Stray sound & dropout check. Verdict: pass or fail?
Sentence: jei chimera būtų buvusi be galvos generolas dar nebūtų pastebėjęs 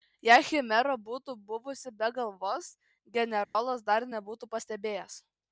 fail